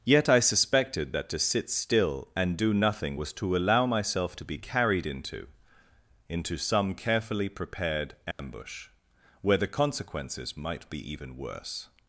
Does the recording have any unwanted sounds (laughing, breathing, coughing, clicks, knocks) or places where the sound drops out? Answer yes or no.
yes